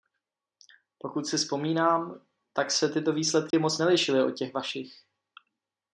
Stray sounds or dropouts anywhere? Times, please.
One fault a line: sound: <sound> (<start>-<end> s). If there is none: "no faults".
sound: dropout (3.5-3.5 s)